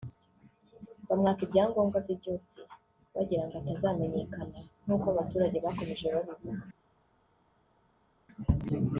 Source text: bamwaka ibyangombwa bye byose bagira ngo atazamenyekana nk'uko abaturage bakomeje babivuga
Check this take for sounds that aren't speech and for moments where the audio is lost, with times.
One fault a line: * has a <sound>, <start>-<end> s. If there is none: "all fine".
all fine